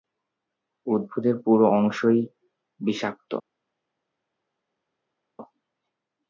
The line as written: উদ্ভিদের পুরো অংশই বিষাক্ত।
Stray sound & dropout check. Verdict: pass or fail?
pass